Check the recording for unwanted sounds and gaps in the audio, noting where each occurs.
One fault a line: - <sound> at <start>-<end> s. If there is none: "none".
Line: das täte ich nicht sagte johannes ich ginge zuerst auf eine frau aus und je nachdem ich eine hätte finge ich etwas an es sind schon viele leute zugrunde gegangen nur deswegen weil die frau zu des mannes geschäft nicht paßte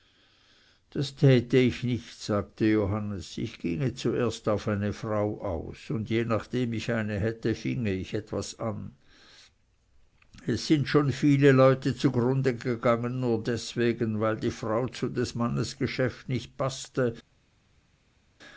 none